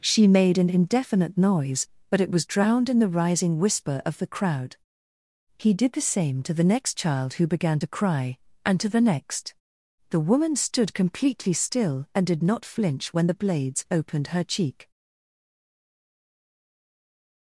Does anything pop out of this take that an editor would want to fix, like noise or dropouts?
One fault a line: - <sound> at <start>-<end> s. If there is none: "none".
none